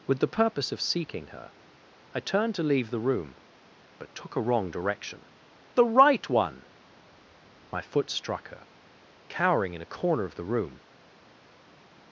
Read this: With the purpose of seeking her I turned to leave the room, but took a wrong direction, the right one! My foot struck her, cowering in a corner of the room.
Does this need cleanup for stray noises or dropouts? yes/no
no